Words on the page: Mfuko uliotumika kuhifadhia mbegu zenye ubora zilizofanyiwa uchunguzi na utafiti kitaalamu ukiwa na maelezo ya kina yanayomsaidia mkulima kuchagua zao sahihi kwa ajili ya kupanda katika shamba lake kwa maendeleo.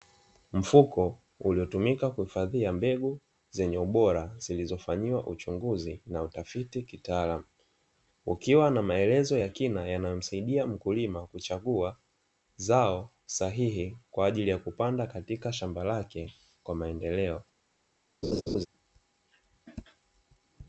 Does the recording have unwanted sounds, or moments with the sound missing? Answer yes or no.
yes